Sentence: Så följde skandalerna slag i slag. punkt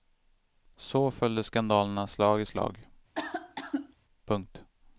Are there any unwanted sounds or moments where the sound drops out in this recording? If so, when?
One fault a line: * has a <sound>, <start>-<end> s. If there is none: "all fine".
* has a cough, 3.2-4.0 s